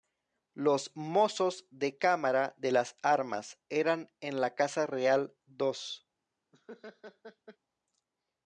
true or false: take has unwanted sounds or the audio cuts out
true